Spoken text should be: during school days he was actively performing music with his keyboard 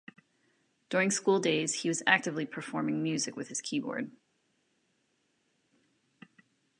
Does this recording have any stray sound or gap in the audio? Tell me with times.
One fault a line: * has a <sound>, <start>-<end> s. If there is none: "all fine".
all fine